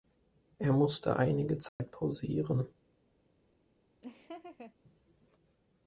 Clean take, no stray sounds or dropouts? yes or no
no